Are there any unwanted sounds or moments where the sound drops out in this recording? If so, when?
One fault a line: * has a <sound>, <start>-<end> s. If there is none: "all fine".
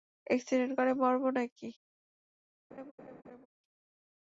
* has a laugh, 2.7-3.5 s